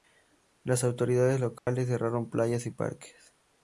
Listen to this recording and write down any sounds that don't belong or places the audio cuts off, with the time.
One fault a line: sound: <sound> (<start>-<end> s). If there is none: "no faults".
sound: dropout (1.6-1.7 s)